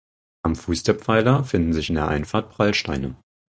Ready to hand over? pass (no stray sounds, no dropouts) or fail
pass